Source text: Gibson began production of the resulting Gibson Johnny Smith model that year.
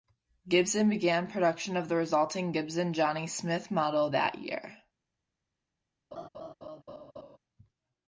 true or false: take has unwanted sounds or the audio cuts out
true